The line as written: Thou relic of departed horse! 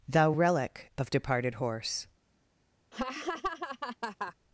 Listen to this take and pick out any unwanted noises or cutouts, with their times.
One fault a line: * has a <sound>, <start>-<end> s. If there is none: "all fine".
* has a laugh, 2.9-4.3 s